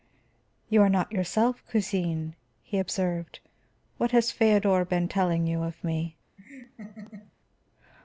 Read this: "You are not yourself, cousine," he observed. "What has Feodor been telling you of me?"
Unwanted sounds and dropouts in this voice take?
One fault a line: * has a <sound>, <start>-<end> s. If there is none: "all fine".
* has a laugh, 6.4-7.3 s